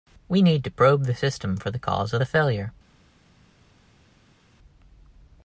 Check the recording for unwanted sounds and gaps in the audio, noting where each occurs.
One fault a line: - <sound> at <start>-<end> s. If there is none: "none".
none